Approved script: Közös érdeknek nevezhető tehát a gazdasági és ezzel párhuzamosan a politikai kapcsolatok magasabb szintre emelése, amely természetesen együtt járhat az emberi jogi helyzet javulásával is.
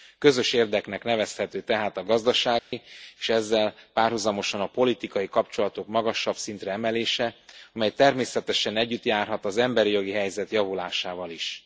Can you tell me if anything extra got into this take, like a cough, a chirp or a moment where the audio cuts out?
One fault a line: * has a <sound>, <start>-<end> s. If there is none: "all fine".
* has a dropout, 2.6-2.7 s